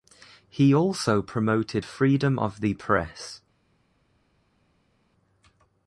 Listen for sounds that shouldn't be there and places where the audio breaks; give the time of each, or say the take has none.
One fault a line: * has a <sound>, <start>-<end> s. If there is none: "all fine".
all fine